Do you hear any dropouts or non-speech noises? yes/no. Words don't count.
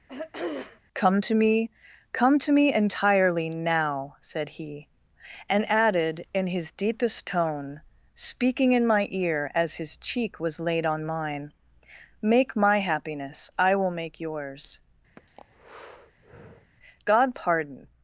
yes